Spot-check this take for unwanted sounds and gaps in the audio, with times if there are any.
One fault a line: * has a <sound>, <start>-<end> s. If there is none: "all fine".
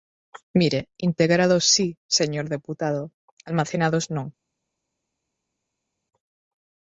all fine